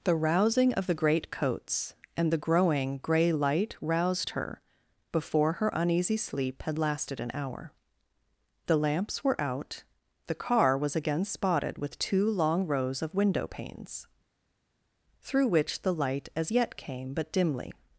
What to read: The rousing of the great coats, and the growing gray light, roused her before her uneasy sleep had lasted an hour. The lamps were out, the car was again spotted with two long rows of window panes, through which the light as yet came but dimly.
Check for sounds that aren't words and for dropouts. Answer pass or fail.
pass